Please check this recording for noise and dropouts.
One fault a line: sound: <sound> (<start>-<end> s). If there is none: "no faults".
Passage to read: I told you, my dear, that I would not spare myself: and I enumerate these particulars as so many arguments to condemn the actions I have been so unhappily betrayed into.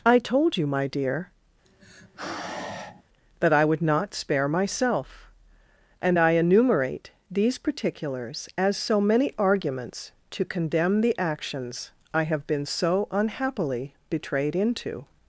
sound: sigh (1.6-3.0 s)